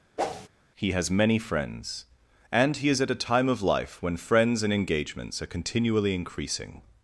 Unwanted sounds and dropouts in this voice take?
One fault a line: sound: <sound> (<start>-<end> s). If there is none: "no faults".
sound: whoosh (0.2-0.5 s)